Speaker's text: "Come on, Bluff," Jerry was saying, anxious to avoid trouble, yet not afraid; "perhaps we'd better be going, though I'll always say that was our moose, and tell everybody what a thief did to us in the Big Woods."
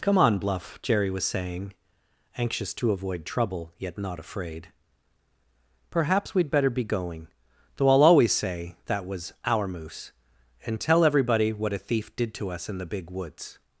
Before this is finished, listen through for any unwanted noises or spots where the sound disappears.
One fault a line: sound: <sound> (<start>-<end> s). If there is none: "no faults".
no faults